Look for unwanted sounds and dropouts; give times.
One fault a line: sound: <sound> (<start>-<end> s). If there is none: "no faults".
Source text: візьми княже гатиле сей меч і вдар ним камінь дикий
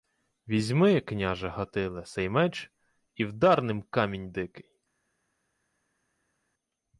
no faults